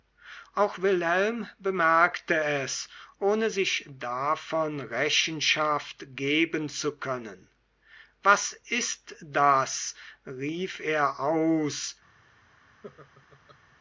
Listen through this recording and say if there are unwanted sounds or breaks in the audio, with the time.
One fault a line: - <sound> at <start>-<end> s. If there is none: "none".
- laugh at 12.8-13.6 s